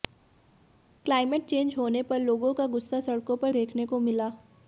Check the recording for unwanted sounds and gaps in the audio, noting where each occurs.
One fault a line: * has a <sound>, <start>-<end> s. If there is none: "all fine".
all fine